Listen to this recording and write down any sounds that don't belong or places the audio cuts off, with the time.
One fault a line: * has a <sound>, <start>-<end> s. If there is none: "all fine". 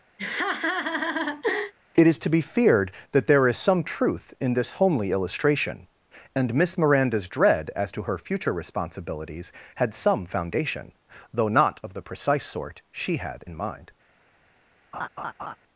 * has a laugh, 0.2-1.7 s
* has a laugh, 14.9-15.6 s